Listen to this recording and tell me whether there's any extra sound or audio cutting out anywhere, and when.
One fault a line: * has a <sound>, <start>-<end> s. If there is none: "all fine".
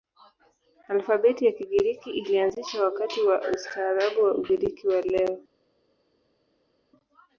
all fine